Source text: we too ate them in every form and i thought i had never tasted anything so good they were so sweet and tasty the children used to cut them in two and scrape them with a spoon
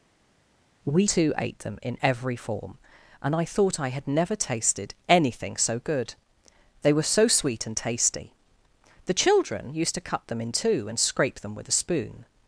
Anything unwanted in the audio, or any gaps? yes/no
no